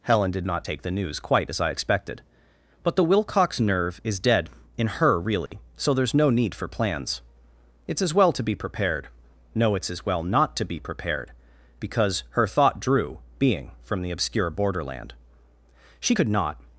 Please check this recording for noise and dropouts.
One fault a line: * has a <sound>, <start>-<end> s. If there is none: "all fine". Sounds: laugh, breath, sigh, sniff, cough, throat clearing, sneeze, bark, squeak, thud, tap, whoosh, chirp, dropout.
* has a dropout, 5.5-5.5 s